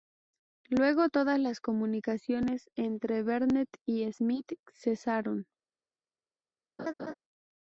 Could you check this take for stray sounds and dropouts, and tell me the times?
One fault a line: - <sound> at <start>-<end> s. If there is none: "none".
- laugh at 6.8-7.1 s